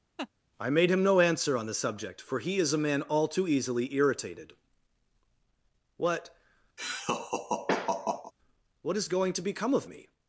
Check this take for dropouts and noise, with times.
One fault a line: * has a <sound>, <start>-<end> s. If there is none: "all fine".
* has a laugh, 0.2-0.3 s
* has a laugh, 6.8-8.3 s